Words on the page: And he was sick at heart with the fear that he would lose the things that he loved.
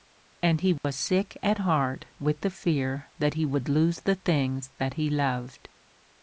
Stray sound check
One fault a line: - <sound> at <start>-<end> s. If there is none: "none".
- dropout at 0.8-0.8 s